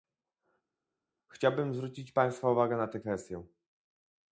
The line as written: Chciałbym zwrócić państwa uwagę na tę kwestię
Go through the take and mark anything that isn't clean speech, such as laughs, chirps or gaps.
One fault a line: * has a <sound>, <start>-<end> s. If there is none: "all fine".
all fine